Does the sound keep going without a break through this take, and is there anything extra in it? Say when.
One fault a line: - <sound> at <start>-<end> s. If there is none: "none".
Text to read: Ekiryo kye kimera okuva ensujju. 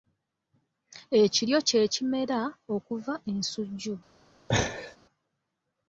- laugh at 4.5-5.0 s